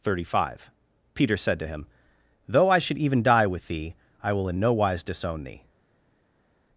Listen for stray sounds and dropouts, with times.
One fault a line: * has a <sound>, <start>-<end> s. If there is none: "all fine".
all fine